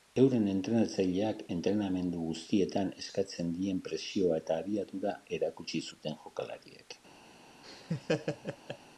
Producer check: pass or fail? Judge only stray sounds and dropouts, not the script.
fail